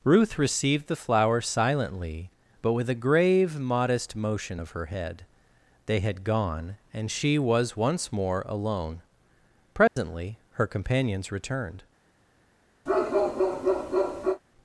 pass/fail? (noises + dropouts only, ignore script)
fail